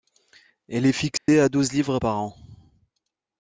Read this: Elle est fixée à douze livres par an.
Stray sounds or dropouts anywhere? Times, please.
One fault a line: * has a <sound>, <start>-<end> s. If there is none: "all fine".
* has a dropout, 1.2-1.3 s